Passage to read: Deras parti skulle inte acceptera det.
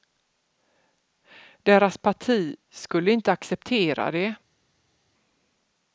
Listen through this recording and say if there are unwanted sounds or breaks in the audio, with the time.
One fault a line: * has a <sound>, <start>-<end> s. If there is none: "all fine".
all fine